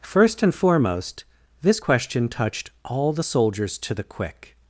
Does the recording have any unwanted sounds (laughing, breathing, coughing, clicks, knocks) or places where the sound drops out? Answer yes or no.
no